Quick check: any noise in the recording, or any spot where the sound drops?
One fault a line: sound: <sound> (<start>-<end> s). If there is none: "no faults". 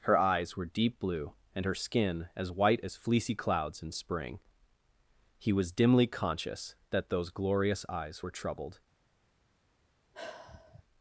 sound: sigh (10.1-10.8 s)